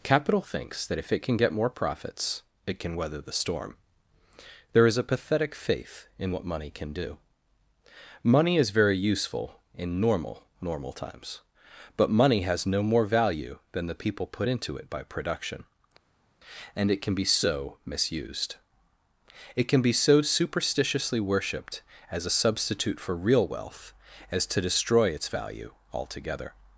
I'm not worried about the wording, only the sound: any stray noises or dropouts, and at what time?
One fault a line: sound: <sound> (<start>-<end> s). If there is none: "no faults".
no faults